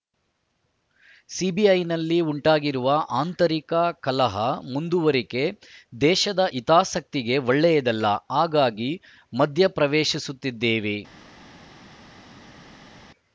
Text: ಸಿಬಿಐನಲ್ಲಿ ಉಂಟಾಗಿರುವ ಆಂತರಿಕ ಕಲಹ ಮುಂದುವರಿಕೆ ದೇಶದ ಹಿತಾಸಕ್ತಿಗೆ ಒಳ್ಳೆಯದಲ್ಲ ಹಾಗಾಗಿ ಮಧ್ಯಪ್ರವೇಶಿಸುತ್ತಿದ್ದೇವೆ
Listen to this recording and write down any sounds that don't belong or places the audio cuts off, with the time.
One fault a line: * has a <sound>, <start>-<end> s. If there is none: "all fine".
all fine